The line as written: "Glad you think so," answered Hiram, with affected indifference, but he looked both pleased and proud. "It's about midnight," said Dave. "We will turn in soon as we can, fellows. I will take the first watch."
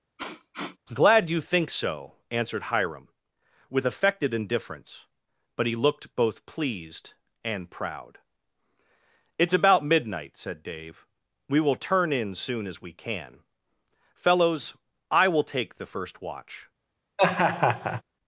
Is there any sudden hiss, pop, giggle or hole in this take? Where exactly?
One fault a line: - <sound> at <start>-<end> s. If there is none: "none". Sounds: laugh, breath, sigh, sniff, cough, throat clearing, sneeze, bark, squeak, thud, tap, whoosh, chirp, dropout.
- sniff at 0.2-0.8 s
- laugh at 17.2-18.0 s